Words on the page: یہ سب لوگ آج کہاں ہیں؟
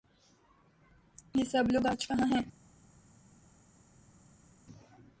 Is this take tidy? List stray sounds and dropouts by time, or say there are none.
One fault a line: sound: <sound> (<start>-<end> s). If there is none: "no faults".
no faults